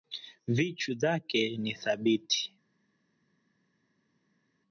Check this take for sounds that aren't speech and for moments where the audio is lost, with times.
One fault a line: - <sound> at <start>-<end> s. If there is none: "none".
none